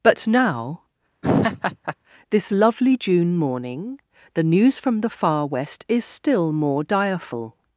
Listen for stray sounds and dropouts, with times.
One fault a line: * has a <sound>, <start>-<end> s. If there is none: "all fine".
* has a laugh, 1.2-2.0 s